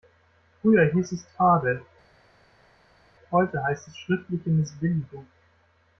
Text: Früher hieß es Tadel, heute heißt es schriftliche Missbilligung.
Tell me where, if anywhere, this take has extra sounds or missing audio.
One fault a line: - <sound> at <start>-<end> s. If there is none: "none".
none